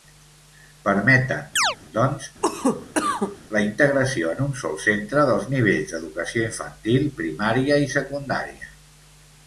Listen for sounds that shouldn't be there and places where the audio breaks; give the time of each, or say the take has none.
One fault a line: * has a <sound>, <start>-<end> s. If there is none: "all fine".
* has a chirp, 1.6-1.8 s
* has a cough, 2.4-3.4 s